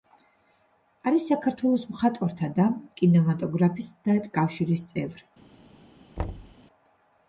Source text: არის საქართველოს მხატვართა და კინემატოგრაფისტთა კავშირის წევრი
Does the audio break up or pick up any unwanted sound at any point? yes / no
yes